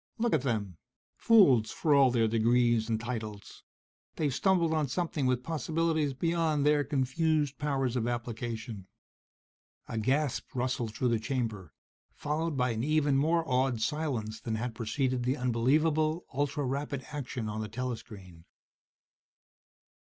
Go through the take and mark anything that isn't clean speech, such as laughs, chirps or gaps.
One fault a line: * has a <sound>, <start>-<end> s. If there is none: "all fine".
all fine